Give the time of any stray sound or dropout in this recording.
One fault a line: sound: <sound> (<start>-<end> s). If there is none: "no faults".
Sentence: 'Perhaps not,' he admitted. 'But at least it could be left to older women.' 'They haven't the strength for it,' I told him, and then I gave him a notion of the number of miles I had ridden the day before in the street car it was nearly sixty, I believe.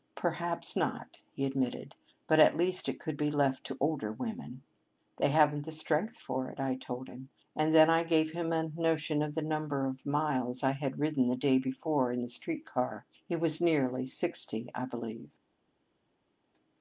no faults